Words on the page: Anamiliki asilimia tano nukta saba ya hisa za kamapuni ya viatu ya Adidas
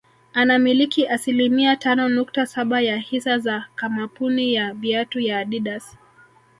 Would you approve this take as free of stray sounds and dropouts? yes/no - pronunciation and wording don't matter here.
yes